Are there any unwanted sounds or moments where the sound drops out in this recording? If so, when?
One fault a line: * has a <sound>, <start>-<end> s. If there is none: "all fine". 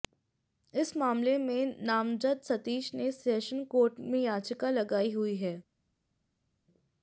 all fine